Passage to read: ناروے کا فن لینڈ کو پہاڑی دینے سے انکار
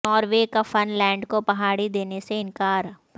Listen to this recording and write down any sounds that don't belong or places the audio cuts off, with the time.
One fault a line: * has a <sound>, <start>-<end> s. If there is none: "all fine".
all fine